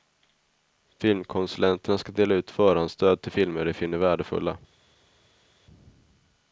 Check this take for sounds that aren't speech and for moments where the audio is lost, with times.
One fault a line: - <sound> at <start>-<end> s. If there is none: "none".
none